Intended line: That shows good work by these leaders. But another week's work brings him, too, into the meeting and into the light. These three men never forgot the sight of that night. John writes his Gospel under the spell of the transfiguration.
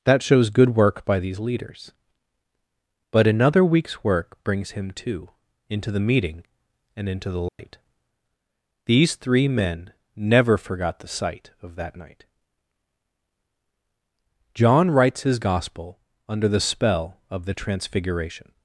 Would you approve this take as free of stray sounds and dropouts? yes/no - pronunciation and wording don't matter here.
no